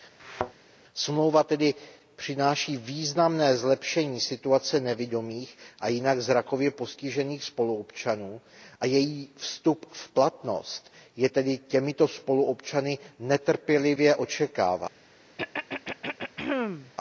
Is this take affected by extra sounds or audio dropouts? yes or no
yes